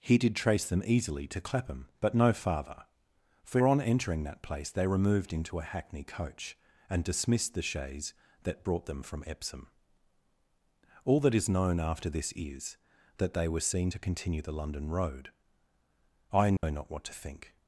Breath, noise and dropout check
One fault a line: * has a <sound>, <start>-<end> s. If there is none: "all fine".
* has a dropout, 16.6-16.6 s